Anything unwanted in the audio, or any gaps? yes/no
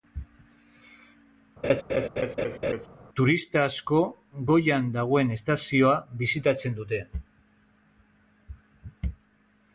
yes